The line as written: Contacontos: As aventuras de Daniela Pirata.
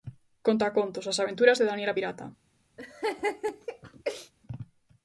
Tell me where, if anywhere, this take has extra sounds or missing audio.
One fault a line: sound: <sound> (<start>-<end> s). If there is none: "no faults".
sound: laugh (2.8-4.3 s)